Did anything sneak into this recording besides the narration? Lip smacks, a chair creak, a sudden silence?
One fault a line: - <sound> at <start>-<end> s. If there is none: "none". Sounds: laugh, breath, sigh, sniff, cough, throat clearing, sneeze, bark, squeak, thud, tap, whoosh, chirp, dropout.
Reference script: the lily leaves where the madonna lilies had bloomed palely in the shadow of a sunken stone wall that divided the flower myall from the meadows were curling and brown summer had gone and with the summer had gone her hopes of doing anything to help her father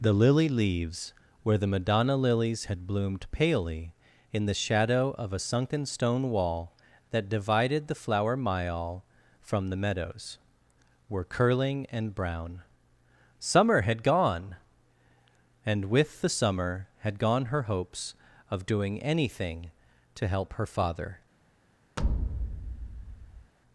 - thud at 22.0-23.5 s